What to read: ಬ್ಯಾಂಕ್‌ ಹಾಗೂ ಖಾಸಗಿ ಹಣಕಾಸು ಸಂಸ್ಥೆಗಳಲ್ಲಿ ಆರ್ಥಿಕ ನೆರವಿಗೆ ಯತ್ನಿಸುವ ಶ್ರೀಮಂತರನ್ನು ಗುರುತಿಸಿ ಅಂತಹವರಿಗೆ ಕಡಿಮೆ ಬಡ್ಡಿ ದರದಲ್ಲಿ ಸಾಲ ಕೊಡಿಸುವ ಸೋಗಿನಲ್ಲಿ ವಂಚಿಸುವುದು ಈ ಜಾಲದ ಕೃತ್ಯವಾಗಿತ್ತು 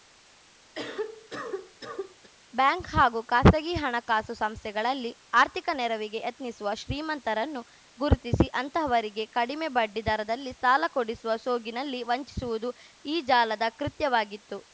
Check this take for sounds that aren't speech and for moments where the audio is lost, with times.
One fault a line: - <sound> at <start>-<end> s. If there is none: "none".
- cough at 0.8-2.3 s